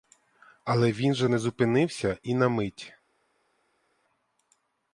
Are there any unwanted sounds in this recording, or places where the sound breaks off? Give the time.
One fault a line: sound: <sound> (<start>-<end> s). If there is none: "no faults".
no faults